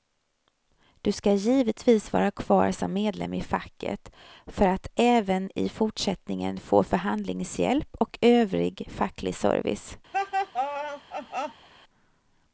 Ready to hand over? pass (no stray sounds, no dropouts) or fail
fail